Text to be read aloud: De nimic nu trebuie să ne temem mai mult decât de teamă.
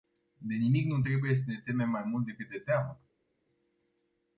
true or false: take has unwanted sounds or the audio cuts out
false